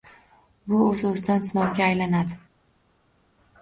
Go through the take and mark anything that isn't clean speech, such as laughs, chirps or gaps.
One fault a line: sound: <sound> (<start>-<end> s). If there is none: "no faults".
no faults